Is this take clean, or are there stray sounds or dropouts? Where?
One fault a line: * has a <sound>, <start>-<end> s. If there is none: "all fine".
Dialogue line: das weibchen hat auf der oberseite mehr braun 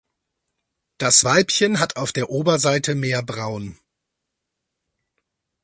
all fine